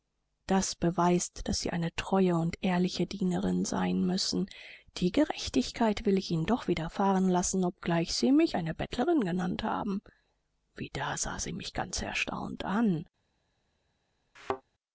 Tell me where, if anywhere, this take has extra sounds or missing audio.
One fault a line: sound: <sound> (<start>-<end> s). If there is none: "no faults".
sound: thud (14.4-14.6 s)